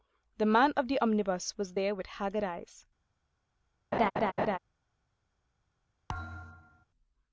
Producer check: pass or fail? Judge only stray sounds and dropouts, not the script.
fail